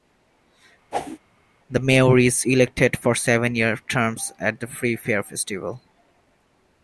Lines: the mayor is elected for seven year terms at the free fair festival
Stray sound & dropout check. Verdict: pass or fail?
fail